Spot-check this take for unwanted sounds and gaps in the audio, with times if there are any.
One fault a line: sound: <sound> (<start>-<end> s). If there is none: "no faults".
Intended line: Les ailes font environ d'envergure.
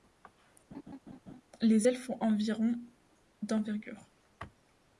sound: laugh (0.7-1.4 s)